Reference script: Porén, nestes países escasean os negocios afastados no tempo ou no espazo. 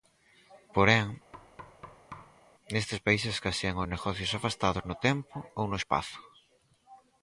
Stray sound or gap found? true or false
true